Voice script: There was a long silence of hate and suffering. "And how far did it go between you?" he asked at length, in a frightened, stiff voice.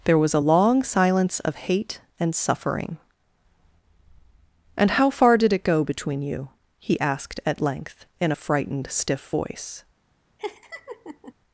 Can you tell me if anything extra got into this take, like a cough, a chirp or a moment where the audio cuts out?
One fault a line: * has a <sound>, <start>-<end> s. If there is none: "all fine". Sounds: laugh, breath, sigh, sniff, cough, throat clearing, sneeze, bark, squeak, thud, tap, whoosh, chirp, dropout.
* has a laugh, 10.4-11.3 s